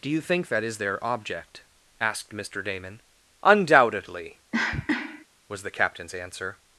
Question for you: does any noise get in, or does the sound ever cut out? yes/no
yes